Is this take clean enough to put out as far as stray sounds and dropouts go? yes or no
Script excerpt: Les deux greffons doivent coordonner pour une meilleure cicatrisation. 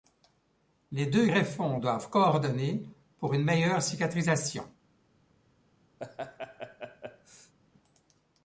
no